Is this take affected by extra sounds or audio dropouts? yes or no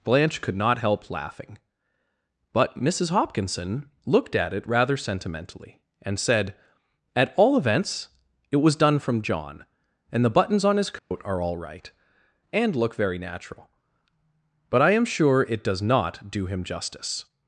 yes